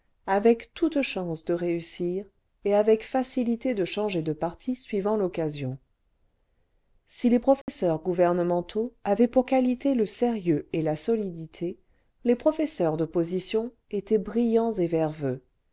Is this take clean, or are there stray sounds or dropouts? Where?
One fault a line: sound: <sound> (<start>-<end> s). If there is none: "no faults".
sound: dropout (7.6-7.7 s)